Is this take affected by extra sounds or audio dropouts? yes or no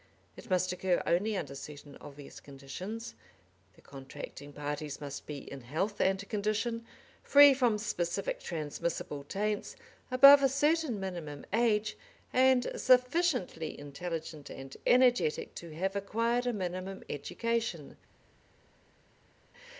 no